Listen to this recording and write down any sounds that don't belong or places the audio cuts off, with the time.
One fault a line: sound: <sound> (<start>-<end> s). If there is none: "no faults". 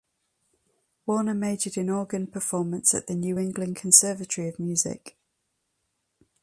no faults